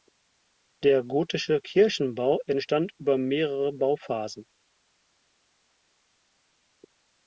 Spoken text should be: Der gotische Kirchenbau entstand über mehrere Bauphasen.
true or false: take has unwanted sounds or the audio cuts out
false